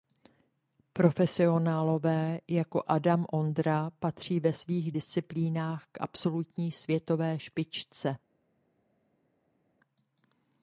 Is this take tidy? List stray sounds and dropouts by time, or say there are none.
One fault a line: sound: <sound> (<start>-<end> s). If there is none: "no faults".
no faults